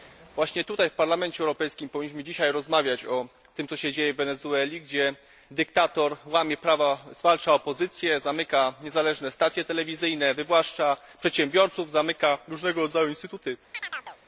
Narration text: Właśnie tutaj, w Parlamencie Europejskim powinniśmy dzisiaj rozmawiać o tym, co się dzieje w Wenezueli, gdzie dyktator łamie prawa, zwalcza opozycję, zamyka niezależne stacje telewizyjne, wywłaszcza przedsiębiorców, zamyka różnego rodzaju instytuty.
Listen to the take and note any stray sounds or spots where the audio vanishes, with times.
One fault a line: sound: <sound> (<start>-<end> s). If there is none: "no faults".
sound: chirp (13.7-14.2 s)